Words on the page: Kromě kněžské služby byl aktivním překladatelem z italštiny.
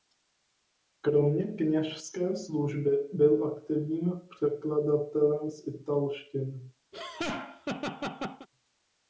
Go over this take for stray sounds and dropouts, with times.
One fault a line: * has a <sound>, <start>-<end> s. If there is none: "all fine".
* has a laugh, 6.9-8.5 s